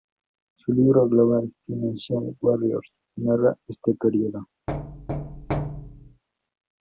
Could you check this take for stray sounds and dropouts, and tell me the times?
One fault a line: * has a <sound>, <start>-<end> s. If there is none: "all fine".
* has a thud, 4.7-6.2 s